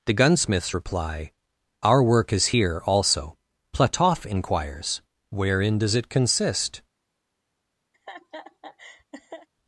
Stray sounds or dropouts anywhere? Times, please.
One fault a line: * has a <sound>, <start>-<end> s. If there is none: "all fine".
* has a laugh, 7.9-9.5 s